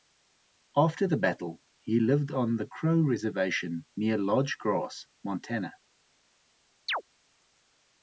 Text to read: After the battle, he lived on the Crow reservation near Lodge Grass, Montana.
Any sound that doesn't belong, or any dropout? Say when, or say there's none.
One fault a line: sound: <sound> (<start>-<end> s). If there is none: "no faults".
sound: chirp (6.9-7.0 s)